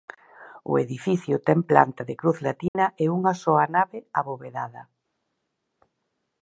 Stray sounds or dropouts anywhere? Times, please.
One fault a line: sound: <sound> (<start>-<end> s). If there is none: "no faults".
sound: dropout (2.7-2.7 s)